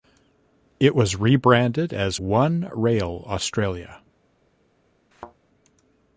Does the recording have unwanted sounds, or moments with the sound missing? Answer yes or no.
yes